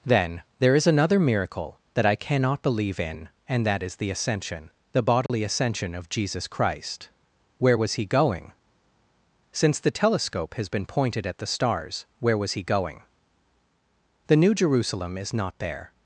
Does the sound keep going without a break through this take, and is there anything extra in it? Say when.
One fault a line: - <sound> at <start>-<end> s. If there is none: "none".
- dropout at 5.3-5.3 s